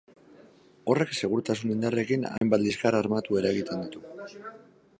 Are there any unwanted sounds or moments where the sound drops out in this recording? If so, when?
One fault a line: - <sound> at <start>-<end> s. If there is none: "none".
- dropout at 2.4-2.4 s